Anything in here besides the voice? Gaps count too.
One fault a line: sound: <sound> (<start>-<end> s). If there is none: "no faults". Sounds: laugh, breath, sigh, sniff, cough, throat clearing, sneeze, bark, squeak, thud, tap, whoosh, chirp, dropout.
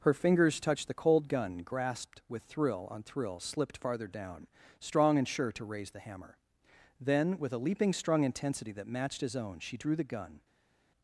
no faults